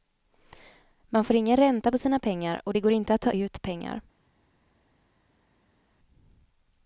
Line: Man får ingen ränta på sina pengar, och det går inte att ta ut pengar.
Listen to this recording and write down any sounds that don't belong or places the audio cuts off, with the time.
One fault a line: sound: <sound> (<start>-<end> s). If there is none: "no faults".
no faults